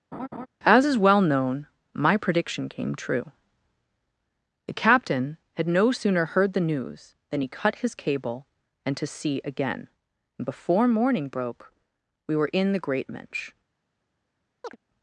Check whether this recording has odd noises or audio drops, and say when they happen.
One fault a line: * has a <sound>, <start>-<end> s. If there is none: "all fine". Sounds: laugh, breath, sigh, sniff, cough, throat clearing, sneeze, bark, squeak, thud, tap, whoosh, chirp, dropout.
* has a laugh, 0.1-0.5 s
* has a chirp, 14.6-14.8 s